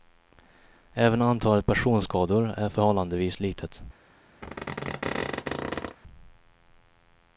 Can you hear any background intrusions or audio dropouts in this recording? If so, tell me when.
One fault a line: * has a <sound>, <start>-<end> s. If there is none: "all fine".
* has a squeak, 4.4-6.0 s